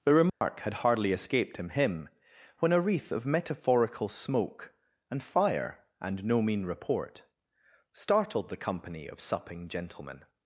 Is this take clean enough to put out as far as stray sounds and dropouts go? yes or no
no